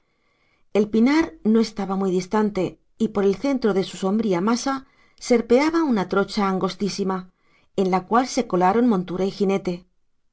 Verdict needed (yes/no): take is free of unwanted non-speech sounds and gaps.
yes